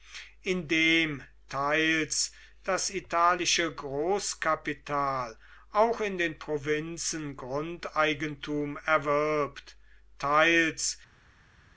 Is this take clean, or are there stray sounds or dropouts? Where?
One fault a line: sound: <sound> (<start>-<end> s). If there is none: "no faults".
no faults